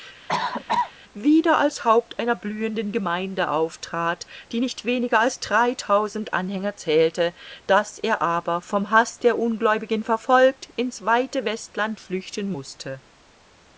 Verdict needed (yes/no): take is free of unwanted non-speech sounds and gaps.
no